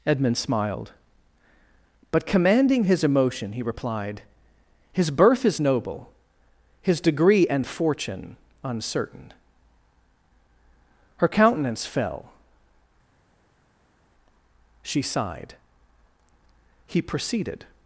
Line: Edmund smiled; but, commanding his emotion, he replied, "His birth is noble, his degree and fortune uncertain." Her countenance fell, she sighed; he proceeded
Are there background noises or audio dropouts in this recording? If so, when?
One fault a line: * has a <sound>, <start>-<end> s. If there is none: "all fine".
all fine